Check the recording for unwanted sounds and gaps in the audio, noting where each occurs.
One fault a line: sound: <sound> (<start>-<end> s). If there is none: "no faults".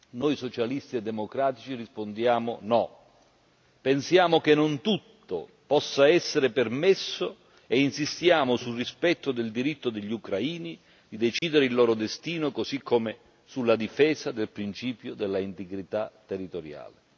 sound: dropout (11.4-11.4 s)